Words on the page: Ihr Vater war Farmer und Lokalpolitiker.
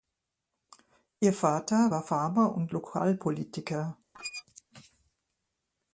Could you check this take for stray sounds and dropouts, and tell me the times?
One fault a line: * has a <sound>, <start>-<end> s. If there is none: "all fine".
* has a squeak, 4.1-4.4 s